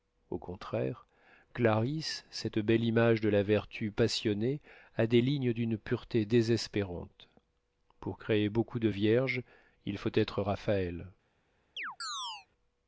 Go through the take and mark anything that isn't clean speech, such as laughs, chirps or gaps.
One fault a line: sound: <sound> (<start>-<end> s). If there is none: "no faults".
sound: chirp (11.8-12.5 s)